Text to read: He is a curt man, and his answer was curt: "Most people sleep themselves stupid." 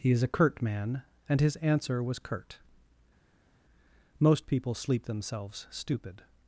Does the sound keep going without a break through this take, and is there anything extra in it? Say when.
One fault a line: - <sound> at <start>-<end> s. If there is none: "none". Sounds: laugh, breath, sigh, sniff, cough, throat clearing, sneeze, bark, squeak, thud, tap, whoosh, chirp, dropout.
none